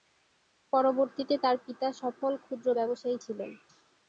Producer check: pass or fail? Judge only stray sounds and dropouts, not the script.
pass